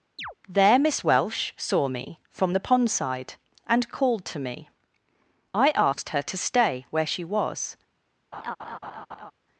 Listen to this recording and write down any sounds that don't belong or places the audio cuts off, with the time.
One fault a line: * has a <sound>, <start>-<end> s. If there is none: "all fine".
* has a chirp, 0.2-0.3 s
* has a laugh, 8.3-9.3 s